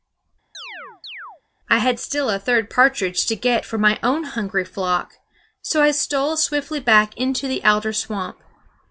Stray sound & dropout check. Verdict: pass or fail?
fail